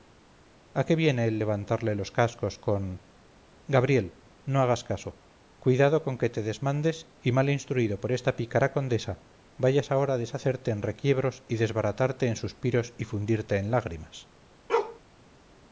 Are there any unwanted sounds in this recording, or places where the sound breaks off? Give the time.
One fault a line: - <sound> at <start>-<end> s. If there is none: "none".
- bark at 14.7-15.0 s